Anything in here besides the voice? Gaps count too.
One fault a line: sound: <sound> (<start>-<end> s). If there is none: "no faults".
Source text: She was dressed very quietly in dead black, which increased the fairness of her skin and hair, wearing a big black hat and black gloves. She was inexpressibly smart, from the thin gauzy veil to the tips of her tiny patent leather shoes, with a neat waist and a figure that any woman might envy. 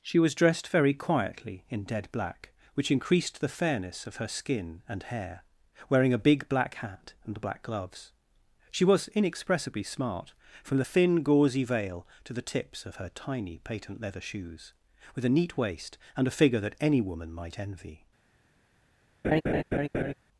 sound: laugh (19.2-20.1 s)